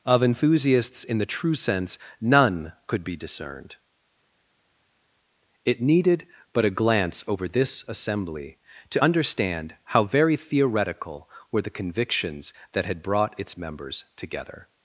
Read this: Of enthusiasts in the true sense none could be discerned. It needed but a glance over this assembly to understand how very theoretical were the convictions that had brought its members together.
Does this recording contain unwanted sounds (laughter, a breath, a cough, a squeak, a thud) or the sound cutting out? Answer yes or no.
no